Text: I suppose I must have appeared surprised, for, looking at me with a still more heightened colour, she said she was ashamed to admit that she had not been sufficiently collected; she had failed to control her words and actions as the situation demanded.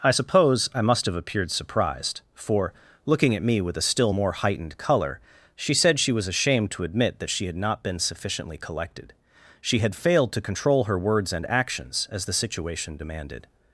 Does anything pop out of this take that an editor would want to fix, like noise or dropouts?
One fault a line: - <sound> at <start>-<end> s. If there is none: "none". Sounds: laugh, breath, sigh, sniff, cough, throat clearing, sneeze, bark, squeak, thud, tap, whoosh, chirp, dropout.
none